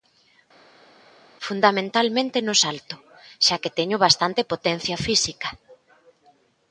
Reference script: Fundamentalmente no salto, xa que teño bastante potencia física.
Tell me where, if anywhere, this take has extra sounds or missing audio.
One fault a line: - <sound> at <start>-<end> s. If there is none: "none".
none